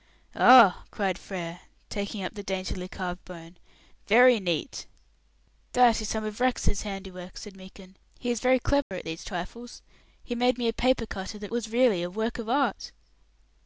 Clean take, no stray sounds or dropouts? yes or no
no